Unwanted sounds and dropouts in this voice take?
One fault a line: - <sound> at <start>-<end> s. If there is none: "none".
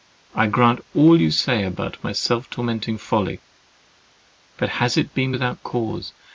none